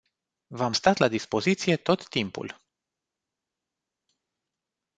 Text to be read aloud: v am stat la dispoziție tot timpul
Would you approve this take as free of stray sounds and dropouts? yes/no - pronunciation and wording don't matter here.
yes